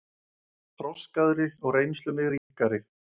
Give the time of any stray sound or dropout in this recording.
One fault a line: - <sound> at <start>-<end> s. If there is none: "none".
- dropout at 2.4-2.5 s